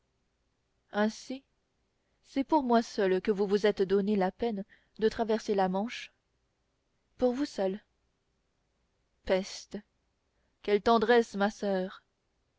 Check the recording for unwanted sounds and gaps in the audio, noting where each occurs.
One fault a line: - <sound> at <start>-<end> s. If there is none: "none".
none